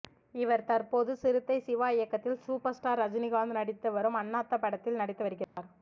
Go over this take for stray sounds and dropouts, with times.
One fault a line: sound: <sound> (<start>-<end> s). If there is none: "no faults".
sound: dropout (5.4-5.6 s)